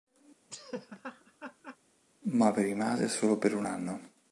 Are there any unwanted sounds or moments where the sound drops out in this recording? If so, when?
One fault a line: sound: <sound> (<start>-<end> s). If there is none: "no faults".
sound: laugh (0.5-1.8 s)